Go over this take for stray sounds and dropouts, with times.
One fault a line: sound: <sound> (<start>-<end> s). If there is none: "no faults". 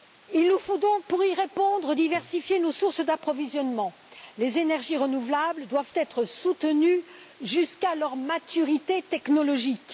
no faults